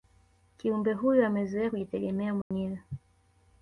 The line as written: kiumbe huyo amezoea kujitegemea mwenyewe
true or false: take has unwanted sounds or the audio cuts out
true